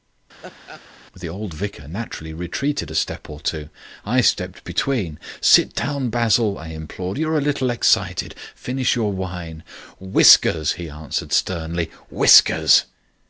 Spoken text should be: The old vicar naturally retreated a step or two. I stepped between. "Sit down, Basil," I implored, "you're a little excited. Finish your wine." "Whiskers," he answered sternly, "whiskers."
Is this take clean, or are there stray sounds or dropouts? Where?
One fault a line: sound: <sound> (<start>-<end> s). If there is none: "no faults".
sound: laugh (0.4-0.8 s)